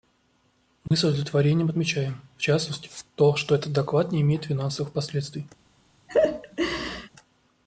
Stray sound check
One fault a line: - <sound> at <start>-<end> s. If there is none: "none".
- dropout at 0.9-0.9 s
- laugh at 6.1-7.1 s